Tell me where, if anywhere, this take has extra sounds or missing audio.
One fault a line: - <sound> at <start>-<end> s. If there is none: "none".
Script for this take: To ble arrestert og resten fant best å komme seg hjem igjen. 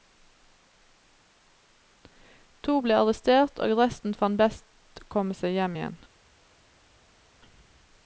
none